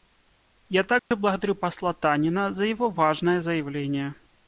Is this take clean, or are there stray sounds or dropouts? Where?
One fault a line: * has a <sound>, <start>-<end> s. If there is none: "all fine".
* has a dropout, 1.0-1.1 s